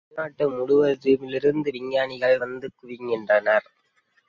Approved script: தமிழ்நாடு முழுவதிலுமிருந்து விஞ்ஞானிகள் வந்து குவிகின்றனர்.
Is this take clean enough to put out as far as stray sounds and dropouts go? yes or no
yes